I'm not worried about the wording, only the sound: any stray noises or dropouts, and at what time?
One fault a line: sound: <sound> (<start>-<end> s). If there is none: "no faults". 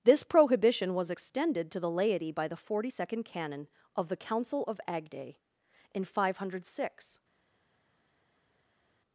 no faults